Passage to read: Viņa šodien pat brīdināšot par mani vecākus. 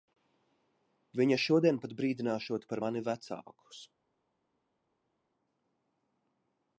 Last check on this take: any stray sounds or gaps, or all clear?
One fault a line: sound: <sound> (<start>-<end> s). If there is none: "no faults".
no faults